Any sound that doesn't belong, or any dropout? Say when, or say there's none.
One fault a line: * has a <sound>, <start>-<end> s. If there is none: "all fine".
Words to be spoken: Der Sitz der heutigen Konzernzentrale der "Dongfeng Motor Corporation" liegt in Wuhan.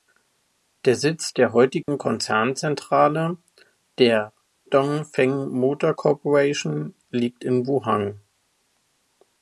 * has a dropout, 1.8-1.9 s